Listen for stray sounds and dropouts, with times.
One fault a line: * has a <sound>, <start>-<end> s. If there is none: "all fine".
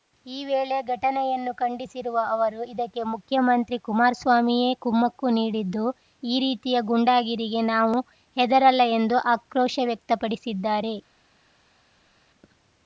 all fine